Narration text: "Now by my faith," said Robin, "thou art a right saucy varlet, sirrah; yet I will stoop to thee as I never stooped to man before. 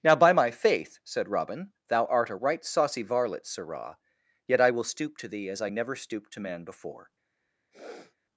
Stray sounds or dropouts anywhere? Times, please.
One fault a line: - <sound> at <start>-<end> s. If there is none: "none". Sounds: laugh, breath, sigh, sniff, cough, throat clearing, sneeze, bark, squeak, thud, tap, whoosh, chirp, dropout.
- sniff at 7.7-8.2 s